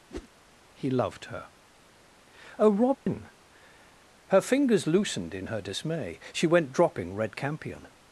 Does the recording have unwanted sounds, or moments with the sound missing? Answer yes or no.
yes